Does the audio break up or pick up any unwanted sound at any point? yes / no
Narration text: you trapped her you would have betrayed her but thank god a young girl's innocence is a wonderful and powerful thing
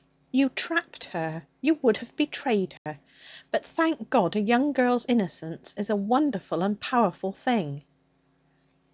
yes